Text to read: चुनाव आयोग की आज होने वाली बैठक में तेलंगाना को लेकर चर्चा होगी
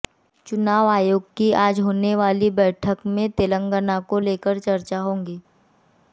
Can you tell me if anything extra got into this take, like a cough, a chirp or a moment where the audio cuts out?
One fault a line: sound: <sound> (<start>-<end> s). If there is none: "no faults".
no faults